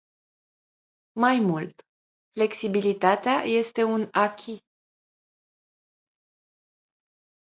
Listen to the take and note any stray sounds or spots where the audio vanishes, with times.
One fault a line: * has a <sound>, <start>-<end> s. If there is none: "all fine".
all fine